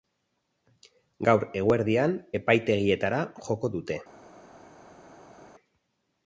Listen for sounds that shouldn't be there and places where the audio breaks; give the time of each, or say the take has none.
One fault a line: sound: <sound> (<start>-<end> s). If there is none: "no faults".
no faults